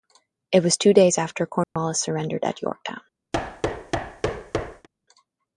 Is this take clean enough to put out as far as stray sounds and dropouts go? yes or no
no